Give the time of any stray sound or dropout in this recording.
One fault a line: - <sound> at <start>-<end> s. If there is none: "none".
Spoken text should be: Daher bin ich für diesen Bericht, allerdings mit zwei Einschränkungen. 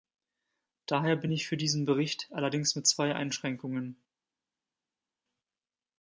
none